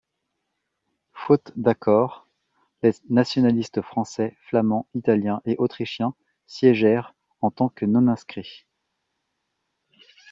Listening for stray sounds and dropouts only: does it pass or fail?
pass